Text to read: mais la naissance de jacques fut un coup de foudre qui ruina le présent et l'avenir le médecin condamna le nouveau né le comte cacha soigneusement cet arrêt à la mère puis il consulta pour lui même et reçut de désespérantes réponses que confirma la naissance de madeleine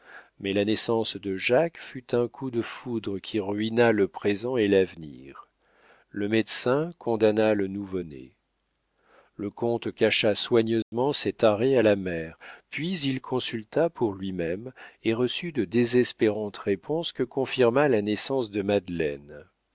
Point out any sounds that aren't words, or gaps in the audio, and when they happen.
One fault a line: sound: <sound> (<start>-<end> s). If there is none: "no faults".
sound: dropout (10.8-10.9 s)